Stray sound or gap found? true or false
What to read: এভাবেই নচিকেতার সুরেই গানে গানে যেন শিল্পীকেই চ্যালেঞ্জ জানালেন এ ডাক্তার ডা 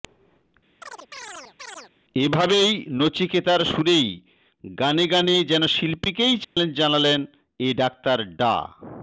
true